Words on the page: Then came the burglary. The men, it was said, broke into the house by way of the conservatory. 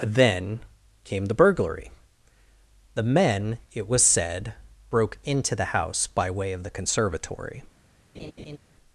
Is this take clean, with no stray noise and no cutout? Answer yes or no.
no